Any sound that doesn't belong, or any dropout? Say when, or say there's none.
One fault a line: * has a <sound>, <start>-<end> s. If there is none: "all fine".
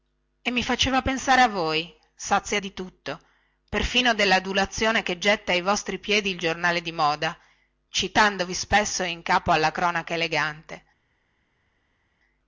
all fine